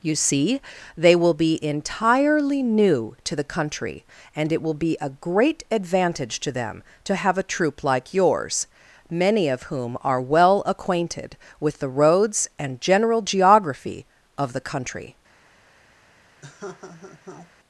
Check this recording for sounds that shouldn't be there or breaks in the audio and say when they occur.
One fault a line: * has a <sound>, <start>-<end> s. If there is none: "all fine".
* has a laugh, 16.4-17.5 s